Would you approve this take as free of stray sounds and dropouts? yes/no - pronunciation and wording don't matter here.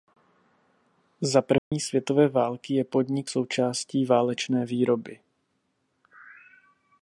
no